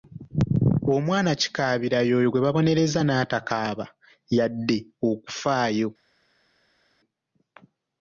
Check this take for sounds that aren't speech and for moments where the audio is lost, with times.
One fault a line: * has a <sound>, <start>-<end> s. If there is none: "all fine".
all fine